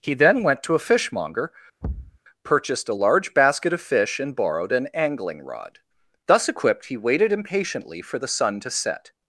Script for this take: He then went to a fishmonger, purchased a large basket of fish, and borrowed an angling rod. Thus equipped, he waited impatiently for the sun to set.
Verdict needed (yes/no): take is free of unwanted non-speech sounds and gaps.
no